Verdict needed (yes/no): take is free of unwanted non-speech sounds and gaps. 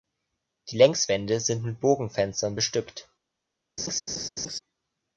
no